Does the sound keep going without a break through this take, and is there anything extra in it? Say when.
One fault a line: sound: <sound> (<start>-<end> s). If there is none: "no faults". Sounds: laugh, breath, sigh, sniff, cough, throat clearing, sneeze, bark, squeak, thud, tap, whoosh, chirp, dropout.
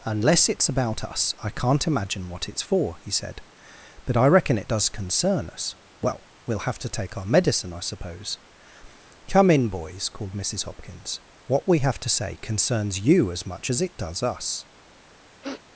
sound: sniff (15.4-15.6 s)